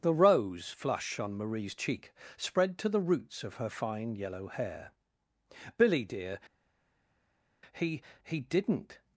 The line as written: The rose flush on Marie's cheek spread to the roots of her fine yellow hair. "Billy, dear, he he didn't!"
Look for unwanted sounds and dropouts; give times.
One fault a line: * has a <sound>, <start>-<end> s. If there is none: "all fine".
all fine